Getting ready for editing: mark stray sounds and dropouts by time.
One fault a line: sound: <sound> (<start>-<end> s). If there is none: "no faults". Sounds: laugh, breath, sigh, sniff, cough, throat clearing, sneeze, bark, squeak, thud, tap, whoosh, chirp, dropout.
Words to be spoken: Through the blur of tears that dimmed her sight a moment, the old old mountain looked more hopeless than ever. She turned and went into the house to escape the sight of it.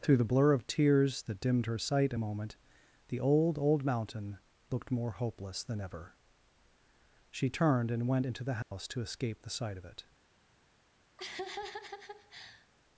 sound: dropout (8.6-8.7 s)
sound: laugh (11.2-12.7 s)